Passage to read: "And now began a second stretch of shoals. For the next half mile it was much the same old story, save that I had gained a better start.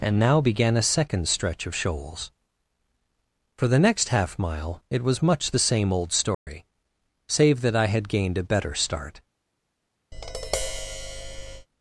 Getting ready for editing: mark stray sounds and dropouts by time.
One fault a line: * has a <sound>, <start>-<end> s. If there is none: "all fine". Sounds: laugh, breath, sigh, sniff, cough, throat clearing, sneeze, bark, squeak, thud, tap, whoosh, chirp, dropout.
* has a dropout, 6.3-6.5 s
* has a tap, 10.1-11.7 s